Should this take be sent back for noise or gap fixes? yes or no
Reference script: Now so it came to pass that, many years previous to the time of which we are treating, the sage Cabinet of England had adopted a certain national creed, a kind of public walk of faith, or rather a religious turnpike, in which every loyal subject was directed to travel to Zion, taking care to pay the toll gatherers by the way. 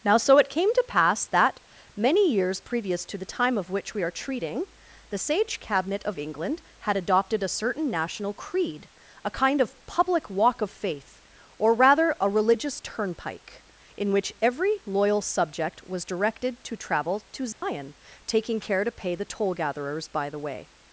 yes